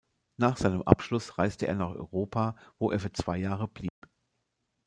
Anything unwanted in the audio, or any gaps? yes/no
yes